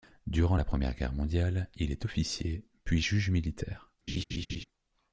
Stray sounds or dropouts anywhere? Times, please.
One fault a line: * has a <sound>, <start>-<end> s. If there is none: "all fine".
* has a laugh, 4.1-4.6 s